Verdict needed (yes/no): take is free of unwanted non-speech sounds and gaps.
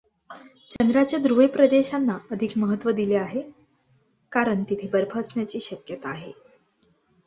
no